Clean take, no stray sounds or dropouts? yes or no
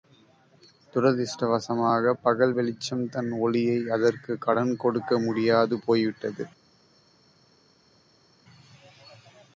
yes